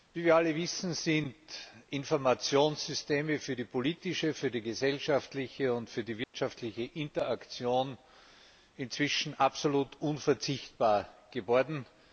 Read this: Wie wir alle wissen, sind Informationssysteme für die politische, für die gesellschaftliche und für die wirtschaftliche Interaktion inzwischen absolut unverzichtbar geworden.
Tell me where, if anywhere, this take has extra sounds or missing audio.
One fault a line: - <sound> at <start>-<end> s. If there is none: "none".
- dropout at 6.2-6.3 s